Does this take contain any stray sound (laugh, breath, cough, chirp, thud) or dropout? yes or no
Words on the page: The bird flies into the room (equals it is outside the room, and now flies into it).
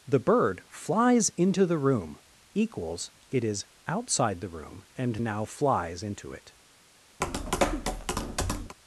yes